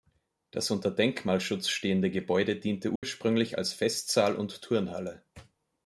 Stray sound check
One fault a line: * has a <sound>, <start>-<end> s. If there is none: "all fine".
* has a dropout, 3.0-3.0 s